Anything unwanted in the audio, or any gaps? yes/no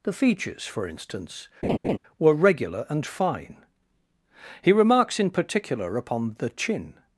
yes